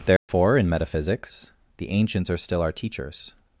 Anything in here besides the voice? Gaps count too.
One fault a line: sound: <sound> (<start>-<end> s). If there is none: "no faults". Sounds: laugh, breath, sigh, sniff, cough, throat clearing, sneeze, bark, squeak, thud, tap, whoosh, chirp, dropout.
sound: dropout (0.2-0.3 s)